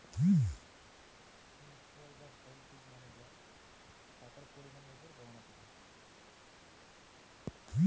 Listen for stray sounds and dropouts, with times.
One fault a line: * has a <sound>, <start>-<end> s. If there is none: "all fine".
all fine